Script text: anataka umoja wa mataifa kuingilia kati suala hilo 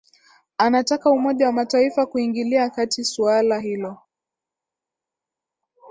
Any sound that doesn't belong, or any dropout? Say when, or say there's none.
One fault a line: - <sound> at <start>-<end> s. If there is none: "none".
none